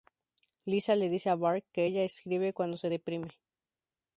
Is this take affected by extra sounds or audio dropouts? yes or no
no